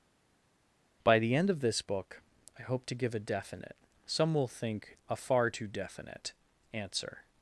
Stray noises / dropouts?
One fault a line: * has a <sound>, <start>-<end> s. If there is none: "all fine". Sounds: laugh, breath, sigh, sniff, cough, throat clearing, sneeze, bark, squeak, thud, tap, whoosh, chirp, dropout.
all fine